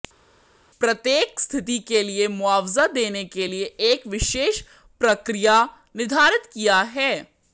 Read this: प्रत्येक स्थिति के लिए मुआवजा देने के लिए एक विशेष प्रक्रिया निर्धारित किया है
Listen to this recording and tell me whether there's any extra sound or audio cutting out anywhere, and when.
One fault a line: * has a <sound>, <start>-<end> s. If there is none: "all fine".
all fine